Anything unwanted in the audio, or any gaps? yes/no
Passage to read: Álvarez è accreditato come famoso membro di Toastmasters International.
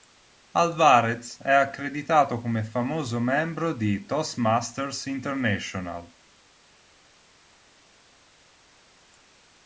no